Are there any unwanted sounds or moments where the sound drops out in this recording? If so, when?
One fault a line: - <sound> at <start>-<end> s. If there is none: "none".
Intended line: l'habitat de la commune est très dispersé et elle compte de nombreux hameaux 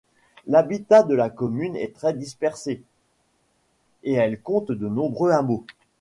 none